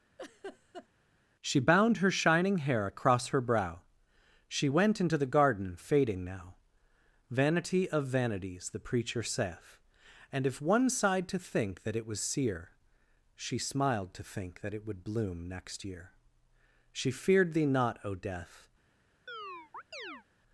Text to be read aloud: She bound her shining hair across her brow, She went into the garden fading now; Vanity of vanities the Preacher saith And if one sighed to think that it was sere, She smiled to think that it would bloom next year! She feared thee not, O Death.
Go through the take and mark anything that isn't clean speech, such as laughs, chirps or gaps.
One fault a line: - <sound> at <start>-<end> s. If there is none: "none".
- laugh at 0.2-0.9 s
- chirp at 19.3-20.2 s